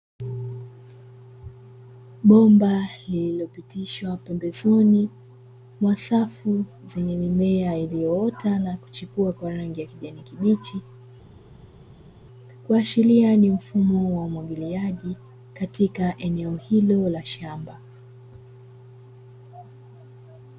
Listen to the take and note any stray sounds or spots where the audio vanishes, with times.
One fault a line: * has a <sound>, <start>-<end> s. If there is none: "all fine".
all fine